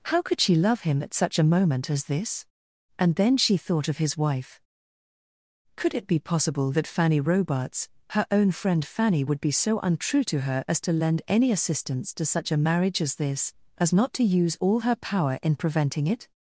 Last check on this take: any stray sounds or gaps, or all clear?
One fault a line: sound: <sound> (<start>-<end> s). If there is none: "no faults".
no faults